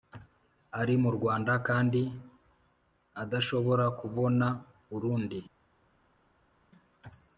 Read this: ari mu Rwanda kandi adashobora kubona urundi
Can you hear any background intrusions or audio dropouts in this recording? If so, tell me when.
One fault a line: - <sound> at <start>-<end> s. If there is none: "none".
none